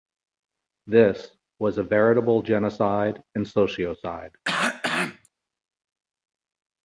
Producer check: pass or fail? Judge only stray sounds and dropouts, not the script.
fail